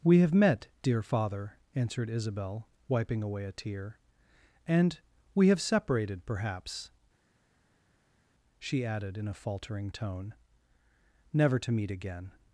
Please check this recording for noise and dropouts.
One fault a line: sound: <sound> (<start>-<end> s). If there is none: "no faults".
no faults